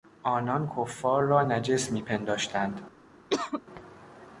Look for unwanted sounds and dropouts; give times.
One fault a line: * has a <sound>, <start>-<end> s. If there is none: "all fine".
* has a cough, 3.3-3.6 s